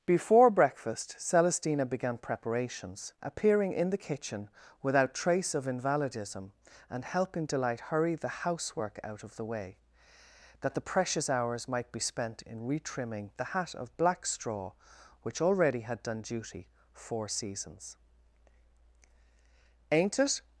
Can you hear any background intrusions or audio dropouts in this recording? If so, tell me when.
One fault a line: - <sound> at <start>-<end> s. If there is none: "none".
none